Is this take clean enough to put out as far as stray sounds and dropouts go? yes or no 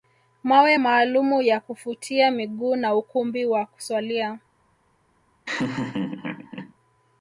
no